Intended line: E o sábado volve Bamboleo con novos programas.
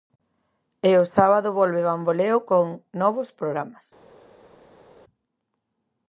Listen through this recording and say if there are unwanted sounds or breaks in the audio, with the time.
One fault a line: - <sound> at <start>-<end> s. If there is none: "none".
none